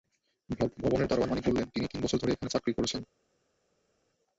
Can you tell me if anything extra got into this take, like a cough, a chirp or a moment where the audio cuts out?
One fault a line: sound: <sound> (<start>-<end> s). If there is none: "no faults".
no faults